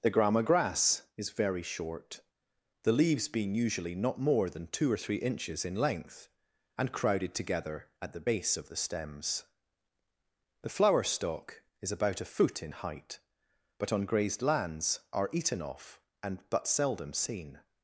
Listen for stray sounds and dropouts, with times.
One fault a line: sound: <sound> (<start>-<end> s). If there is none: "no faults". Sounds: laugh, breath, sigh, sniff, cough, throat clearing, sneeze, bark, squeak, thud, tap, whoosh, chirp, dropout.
no faults